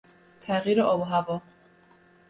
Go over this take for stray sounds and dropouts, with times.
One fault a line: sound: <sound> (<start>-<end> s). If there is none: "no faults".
no faults